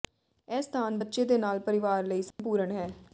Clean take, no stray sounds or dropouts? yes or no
no